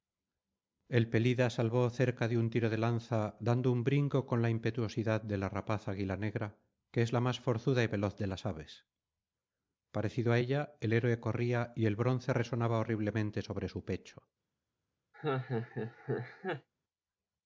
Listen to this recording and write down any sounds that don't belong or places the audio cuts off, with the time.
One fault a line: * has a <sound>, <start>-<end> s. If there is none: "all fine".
* has a laugh, 15.1-16.7 s